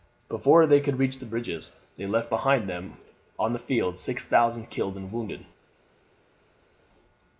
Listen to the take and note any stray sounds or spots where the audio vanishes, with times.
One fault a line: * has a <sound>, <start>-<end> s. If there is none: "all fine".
all fine